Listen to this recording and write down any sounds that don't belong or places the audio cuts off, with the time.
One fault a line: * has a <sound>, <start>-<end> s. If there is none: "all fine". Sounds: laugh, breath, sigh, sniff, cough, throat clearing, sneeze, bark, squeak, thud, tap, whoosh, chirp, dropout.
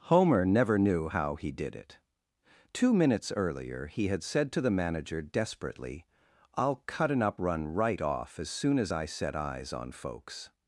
all fine